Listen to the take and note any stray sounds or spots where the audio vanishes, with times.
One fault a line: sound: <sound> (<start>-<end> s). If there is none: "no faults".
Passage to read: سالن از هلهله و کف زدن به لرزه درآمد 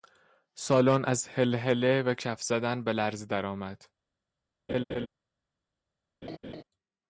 sound: laugh (4.7-5.1 s)
sound: laugh (6.2-6.6 s)